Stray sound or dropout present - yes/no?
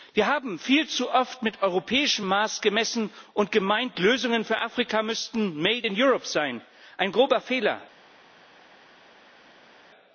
no